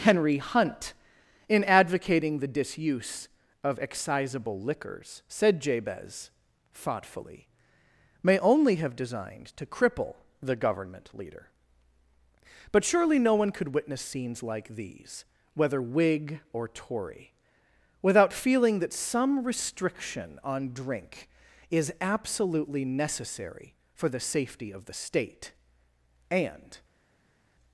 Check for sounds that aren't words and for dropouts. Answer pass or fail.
pass